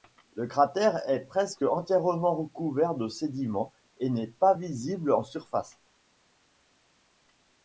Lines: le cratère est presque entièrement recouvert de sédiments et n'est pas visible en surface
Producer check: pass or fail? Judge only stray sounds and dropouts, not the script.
pass